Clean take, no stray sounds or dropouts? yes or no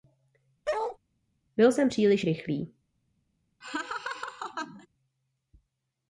no